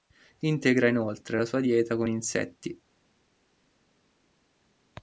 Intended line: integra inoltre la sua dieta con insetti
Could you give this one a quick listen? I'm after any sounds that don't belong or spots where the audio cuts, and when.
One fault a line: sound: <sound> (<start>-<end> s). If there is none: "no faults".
no faults